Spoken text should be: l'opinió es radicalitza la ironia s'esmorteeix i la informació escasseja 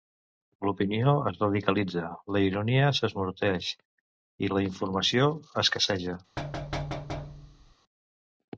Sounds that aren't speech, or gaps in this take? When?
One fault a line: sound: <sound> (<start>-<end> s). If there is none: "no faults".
sound: thud (6.4-7.7 s)